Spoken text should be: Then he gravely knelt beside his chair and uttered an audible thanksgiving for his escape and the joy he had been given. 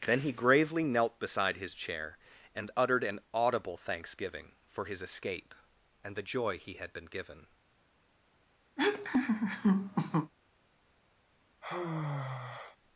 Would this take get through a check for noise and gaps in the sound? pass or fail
fail